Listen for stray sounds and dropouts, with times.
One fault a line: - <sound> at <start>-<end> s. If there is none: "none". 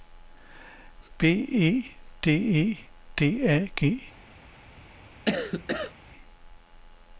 - cough at 5.2-5.9 s